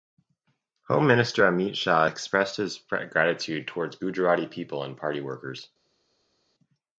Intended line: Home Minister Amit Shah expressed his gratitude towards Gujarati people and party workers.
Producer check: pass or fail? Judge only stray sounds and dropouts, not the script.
pass